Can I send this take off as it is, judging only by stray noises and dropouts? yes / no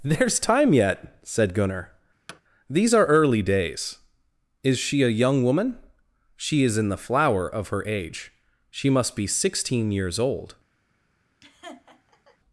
no